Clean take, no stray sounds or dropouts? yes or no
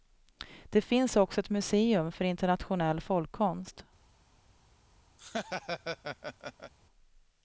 no